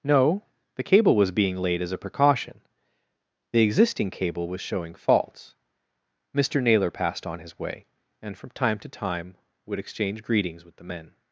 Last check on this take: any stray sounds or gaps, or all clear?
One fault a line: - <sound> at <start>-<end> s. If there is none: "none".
none